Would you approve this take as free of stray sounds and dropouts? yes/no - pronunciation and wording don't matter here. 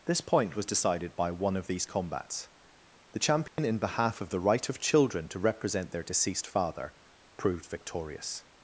no